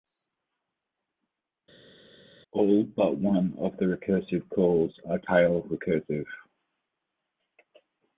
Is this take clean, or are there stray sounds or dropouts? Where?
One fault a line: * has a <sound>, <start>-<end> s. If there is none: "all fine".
all fine